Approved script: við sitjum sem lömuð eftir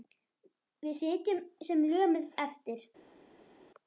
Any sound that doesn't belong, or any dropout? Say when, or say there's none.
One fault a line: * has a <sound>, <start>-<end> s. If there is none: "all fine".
all fine